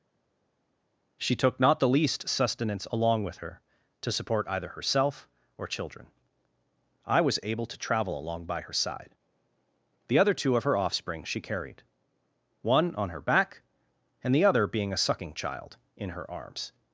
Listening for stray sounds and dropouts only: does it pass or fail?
pass